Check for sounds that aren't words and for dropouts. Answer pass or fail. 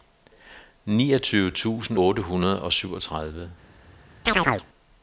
fail